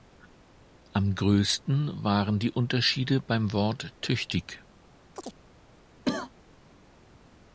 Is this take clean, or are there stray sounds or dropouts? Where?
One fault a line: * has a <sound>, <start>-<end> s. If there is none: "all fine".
* has a chirp, 5.1-5.4 s
* has a cough, 6.0-6.3 s